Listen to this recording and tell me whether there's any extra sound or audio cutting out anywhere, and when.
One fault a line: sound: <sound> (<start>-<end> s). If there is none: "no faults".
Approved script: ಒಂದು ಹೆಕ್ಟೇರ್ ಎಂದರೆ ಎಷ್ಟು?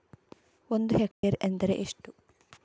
sound: dropout (1.1-1.2 s)